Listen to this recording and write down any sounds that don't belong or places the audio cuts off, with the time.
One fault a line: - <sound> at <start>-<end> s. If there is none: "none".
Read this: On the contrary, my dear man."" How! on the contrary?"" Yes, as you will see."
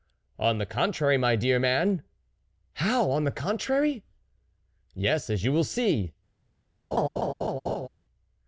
- laugh at 6.9-7.9 s